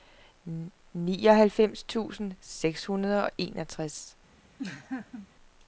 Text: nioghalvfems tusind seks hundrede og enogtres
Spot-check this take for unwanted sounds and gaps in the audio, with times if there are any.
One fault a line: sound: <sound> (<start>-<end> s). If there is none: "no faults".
sound: laugh (4.6-5.3 s)